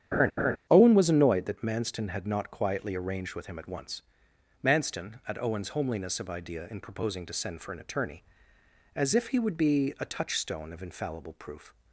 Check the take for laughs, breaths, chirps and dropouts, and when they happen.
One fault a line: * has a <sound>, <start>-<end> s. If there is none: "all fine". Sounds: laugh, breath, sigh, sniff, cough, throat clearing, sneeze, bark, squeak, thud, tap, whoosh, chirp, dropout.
* has a laugh, 0.1-0.6 s